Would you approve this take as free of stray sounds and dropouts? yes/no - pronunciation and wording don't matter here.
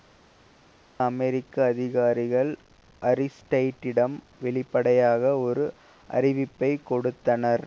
yes